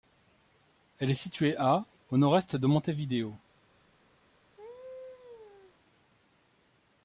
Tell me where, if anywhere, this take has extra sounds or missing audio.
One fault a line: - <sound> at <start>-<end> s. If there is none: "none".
- laugh at 4.6-5.7 s